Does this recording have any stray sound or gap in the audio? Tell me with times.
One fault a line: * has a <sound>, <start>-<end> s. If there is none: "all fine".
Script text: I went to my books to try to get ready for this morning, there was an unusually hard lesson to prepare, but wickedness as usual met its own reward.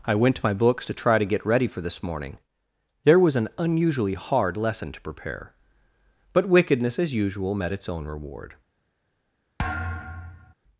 * has a thud, 9.6-10.5 s